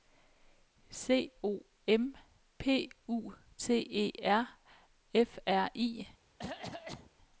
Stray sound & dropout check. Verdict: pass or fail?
fail